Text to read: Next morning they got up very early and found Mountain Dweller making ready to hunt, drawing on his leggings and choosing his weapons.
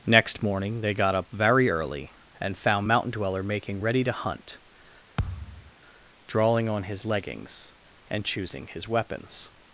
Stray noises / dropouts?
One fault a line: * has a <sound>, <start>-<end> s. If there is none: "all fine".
* has a thud, 5.2-5.7 s